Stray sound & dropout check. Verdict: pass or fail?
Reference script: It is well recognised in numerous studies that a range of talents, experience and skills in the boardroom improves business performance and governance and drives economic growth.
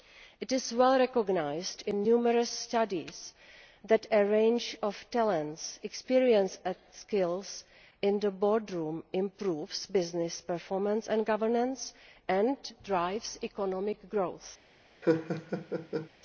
fail